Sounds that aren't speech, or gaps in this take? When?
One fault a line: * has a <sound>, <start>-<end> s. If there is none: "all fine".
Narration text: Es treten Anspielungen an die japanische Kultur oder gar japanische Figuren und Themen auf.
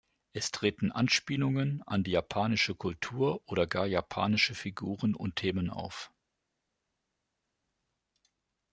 all fine